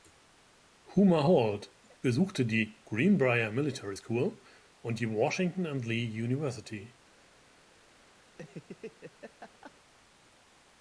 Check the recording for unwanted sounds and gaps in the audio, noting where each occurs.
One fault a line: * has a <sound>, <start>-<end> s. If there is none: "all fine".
* has a laugh, 8.3-9.7 s